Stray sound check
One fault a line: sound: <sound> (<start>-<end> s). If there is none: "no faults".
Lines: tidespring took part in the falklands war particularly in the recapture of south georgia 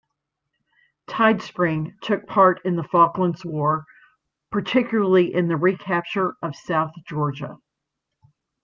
no faults